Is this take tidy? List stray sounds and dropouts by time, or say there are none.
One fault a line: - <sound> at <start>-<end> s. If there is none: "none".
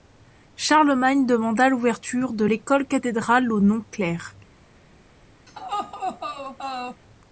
- laugh at 5.5-7.0 s